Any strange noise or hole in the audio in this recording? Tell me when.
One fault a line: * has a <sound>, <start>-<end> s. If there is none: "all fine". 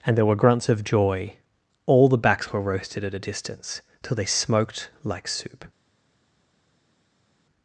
all fine